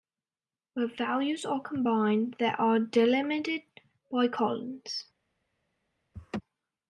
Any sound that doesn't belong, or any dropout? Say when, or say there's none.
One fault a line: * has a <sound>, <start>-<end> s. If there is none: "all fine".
* has a laugh, 6.1-6.4 s